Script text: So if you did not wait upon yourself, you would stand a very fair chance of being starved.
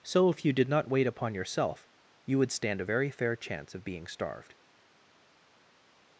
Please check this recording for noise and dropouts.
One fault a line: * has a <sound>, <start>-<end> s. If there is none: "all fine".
all fine